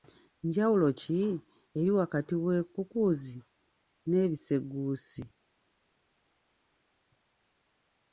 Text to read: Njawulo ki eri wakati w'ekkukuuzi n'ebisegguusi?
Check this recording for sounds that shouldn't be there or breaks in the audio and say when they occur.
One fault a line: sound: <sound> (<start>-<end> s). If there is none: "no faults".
no faults